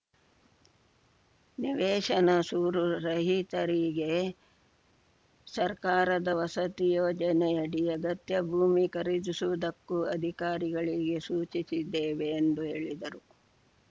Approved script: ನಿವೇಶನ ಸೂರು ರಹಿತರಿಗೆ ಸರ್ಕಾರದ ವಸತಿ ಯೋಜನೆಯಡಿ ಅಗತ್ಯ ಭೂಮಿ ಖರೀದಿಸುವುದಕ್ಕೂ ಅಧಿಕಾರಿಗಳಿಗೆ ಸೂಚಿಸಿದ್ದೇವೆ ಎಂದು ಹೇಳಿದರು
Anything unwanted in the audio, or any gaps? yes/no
no